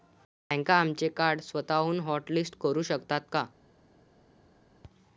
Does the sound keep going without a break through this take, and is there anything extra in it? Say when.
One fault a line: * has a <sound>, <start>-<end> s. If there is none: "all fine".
all fine